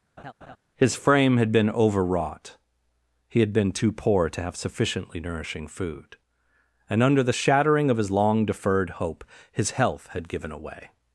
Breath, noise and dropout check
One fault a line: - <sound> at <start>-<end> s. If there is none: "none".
- laugh at 0.2-0.6 s